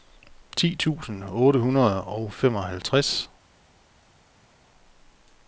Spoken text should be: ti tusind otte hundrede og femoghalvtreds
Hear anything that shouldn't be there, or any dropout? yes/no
no